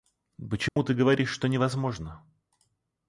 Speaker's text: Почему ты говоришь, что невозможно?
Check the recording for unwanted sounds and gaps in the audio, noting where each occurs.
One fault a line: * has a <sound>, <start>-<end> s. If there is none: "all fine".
* has a dropout, 0.7-0.8 s